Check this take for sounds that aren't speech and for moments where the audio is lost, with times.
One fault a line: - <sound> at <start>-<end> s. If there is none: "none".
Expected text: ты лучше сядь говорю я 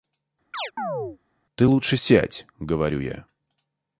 - chirp at 0.5-1.2 s